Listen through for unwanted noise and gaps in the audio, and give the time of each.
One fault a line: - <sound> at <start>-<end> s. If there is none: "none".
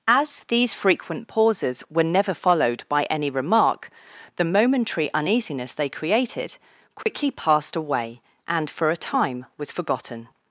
- dropout at 7.0-7.1 s